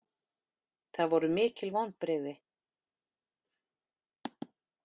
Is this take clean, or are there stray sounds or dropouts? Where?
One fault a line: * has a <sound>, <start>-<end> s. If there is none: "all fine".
all fine